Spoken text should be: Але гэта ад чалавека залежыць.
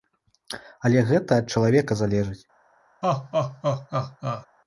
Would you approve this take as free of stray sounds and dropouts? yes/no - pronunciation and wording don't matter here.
no